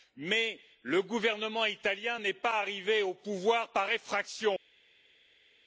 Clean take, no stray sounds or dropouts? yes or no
yes